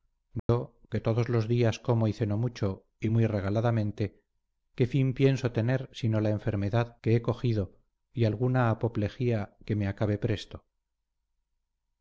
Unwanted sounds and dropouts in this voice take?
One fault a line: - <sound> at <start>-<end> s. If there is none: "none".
- dropout at 0.4-0.5 s